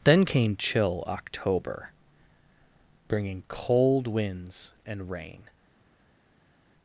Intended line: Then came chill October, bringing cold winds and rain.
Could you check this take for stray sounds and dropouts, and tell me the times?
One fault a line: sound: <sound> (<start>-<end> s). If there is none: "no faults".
no faults